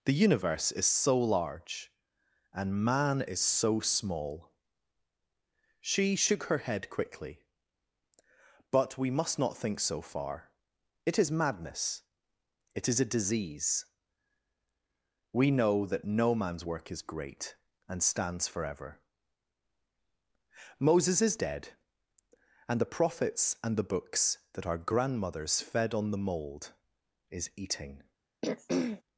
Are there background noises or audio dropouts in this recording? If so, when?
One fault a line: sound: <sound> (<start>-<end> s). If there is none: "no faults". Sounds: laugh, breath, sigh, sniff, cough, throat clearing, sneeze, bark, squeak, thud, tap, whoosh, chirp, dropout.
sound: throat clearing (28.4-29.0 s)